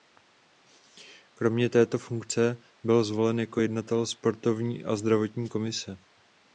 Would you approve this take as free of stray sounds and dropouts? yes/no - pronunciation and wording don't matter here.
yes